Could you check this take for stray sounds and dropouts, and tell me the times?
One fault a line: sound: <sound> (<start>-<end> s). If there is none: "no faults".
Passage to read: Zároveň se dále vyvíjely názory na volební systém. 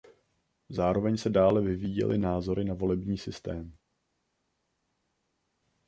no faults